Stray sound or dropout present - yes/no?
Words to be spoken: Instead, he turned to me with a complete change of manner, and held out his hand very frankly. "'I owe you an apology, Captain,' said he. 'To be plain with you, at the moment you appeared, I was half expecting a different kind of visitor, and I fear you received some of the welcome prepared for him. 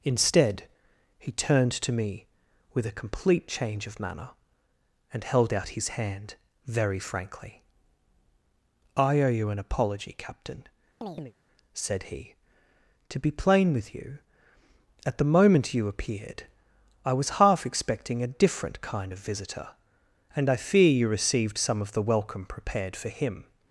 yes